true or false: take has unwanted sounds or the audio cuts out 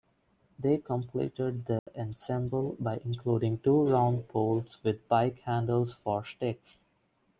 true